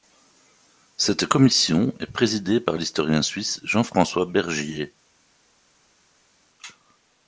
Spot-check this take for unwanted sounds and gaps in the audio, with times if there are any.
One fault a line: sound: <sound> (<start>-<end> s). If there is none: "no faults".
no faults